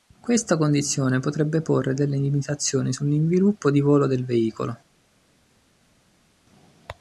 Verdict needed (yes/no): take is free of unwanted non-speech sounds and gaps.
yes